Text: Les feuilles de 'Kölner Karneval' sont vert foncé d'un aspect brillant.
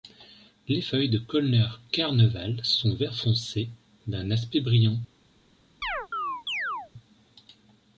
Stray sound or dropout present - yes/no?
yes